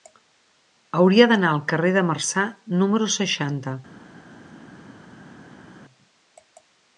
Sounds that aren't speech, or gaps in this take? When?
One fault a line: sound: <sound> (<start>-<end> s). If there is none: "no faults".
no faults